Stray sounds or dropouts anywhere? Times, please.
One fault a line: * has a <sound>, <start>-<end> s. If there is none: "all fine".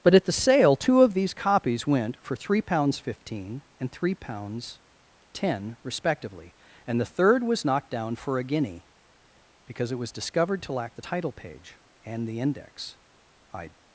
all fine